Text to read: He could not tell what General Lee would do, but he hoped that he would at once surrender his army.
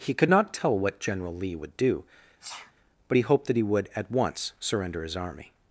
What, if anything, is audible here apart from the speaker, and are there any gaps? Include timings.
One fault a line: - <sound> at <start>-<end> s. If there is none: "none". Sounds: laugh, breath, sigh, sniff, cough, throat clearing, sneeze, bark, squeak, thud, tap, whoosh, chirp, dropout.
- sneeze at 2.4-2.7 s